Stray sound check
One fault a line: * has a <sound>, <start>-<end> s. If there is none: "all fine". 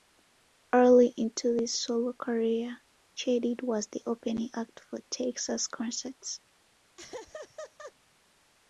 * has a laugh, 7.0-7.9 s